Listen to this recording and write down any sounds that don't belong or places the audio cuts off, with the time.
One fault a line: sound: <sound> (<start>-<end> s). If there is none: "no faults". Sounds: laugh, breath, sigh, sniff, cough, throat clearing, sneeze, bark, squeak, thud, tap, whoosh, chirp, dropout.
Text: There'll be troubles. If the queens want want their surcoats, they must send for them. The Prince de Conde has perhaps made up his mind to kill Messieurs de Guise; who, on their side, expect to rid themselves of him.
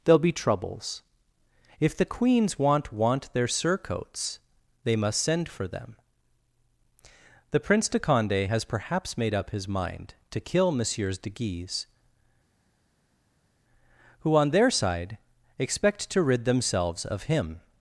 no faults